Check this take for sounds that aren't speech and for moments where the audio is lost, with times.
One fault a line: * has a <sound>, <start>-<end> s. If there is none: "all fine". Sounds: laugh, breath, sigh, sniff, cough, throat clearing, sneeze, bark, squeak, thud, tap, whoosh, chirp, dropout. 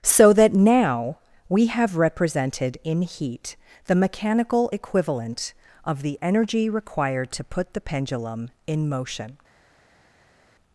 all fine